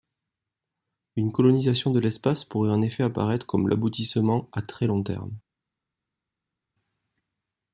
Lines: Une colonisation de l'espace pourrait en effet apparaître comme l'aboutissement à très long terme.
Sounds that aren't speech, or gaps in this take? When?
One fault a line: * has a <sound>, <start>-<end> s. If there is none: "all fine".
all fine